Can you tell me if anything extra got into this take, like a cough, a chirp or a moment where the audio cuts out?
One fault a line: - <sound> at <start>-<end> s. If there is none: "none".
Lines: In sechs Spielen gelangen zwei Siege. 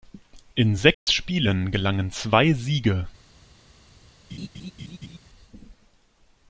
- dropout at 0.9-1.1 s
- laugh at 4.3-5.2 s